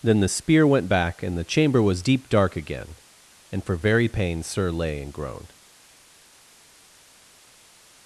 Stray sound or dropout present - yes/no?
no